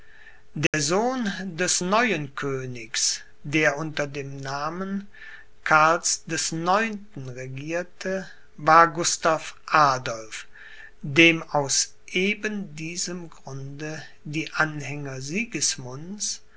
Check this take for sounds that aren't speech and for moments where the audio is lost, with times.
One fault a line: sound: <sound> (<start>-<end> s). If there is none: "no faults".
sound: dropout (0.7-0.7 s)